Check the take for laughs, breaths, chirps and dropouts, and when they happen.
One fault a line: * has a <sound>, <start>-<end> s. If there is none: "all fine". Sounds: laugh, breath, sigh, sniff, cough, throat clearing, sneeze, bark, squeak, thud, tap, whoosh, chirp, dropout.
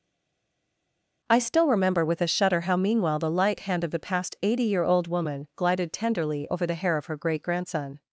all fine